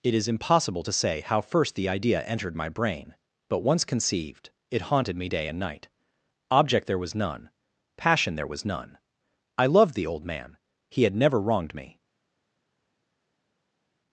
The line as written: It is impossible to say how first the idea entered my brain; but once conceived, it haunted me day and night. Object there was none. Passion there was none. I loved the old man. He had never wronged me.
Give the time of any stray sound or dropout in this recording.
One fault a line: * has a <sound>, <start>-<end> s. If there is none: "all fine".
all fine